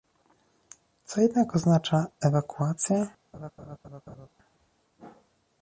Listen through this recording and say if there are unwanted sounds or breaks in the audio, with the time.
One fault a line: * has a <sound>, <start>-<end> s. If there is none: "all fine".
* has a laugh, 3.3-4.3 s